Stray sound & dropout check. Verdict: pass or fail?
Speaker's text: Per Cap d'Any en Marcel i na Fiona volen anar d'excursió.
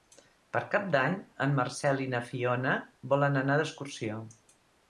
pass